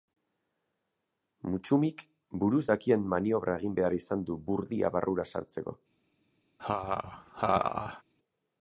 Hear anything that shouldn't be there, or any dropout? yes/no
yes